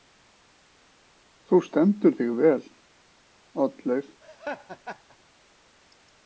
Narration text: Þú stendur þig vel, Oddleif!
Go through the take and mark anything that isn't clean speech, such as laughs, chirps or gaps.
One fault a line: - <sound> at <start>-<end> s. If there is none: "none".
- laugh at 4.2-5.2 s